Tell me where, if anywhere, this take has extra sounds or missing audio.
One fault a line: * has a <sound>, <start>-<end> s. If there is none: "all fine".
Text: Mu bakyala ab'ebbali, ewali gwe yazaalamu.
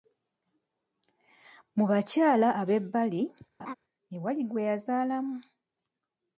* has a laugh, 3.6-3.7 s